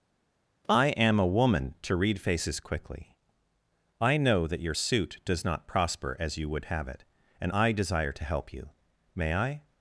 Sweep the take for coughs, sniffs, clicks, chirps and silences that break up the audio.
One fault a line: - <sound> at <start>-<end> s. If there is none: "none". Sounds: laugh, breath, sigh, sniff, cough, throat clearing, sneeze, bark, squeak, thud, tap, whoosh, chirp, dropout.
none